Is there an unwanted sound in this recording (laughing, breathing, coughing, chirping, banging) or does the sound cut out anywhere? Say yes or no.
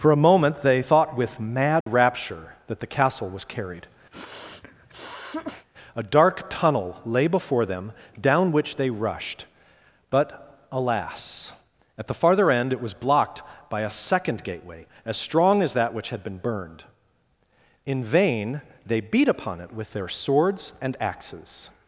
yes